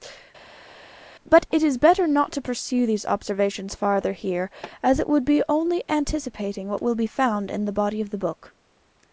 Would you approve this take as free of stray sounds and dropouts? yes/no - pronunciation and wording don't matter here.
yes